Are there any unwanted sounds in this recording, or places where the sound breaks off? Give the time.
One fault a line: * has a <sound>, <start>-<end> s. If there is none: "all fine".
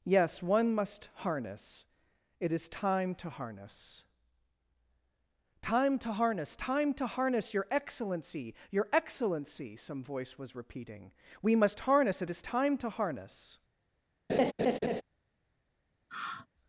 * has a laugh, 14.3-15.0 s
* has a sigh, 16.1-16.5 s